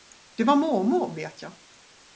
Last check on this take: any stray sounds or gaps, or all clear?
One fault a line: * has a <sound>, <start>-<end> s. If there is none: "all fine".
all fine